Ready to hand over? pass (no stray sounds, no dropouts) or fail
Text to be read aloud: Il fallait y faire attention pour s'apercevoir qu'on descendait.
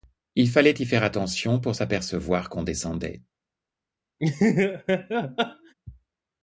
fail